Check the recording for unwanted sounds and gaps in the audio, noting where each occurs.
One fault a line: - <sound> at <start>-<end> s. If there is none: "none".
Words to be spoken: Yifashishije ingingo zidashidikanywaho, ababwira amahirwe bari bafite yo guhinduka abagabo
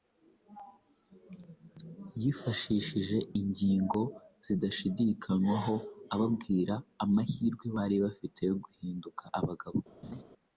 - laugh at 10.0-10.2 s